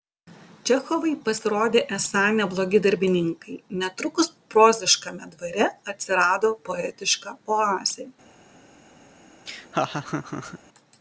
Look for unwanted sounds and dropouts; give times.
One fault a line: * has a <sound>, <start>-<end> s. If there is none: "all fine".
* has a laugh, 9.5-10.6 s